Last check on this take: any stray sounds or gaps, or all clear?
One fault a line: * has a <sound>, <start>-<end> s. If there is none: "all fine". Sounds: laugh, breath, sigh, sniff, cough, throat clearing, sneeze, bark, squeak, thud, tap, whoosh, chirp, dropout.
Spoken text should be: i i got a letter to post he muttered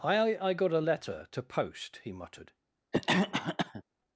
* has a cough, 2.9-3.8 s